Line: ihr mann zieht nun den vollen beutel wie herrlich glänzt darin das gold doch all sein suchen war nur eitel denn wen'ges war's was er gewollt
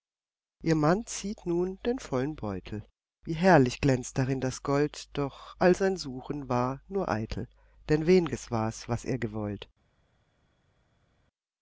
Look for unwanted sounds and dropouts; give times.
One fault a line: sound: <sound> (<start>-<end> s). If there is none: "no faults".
no faults